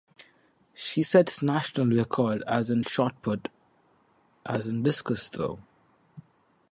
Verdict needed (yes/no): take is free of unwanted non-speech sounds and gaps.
yes